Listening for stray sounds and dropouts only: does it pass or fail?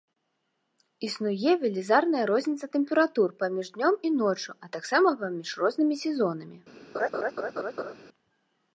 fail